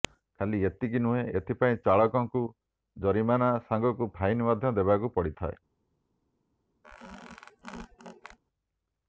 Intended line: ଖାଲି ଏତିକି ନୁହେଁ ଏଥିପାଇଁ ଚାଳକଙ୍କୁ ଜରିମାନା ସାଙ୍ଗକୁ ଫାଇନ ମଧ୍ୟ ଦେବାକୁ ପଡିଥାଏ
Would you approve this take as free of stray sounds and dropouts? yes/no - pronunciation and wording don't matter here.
no